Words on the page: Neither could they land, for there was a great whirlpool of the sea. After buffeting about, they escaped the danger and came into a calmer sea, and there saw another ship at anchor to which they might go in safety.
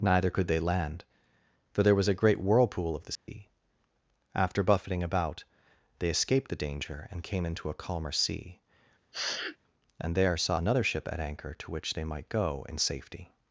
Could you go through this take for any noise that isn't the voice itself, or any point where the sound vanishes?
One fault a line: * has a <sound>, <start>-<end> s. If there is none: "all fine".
* has a dropout, 3.1-3.3 s
* has a sniff, 9.1-9.6 s